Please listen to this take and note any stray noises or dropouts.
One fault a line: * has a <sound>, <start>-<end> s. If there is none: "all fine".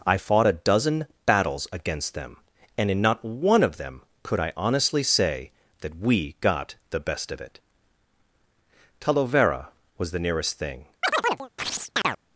* has a chirp, 11.0-12.2 s